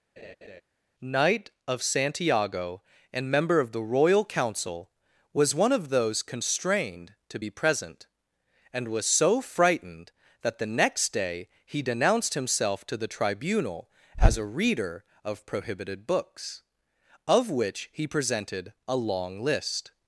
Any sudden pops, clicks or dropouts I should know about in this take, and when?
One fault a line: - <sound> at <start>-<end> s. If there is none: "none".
- laugh at 0.2-0.6 s